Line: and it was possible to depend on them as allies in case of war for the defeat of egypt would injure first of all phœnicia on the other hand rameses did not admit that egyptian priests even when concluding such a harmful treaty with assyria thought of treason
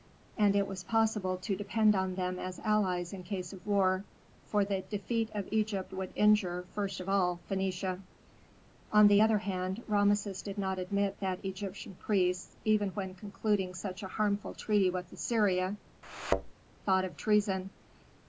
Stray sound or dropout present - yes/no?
yes